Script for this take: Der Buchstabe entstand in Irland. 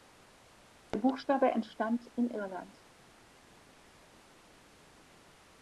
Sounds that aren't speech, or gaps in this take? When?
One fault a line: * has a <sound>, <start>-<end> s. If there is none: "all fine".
all fine